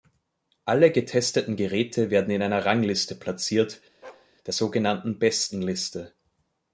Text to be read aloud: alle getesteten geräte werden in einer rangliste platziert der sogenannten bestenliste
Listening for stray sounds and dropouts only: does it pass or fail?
fail